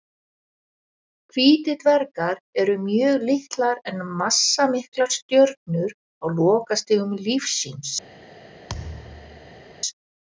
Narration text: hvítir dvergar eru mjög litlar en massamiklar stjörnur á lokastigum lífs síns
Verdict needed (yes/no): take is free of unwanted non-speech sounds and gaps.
no